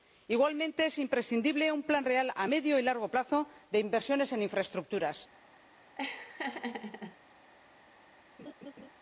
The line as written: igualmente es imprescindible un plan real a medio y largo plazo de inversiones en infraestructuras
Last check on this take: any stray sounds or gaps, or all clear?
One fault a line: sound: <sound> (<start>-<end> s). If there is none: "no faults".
sound: laugh (6.0-7.2 s)
sound: laugh (8.4-8.9 s)